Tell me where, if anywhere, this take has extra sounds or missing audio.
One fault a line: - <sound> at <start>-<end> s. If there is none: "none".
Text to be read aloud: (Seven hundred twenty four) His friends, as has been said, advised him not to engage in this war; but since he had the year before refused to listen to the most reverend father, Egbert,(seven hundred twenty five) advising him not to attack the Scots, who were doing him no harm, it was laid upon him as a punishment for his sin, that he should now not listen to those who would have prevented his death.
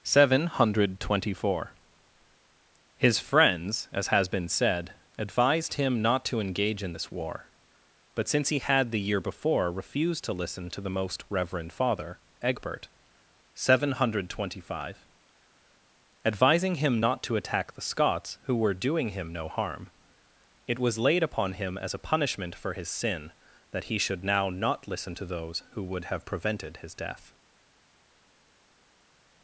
none